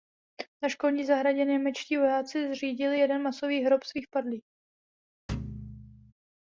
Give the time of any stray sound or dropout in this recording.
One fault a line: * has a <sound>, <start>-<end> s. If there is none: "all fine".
* has a thud, 5.3-6.1 s